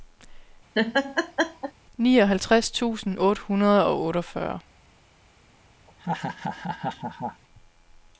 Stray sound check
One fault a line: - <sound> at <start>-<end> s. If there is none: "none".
- laugh at 0.7-1.7 s
- laugh at 5.9-7.4 s